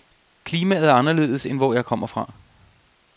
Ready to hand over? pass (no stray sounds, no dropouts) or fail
pass